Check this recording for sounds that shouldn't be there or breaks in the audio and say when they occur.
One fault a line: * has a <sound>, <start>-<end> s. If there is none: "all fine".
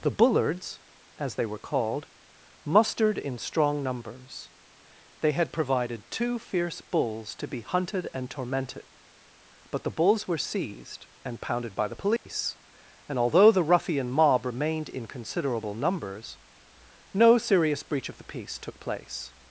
* has a dropout, 12.2-12.3 s